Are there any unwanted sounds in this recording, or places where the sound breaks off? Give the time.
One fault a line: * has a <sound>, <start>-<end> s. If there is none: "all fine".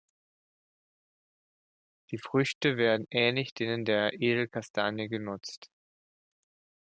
all fine